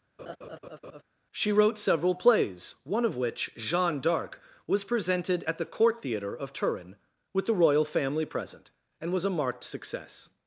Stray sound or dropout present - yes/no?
yes